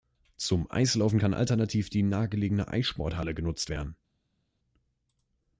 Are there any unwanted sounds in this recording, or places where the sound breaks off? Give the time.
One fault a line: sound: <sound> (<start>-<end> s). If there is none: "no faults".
no faults